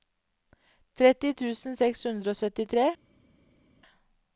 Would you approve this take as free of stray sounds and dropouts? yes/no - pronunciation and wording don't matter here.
yes